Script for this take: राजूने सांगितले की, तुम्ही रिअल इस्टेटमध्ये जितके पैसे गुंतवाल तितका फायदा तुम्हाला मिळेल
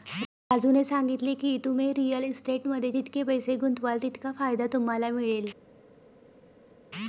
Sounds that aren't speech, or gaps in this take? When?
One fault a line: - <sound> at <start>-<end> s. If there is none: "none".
none